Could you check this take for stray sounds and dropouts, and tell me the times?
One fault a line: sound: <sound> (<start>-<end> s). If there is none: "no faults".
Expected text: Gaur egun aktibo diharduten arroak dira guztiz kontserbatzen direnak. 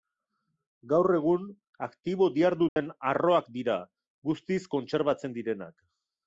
sound: dropout (2.7-2.8 s)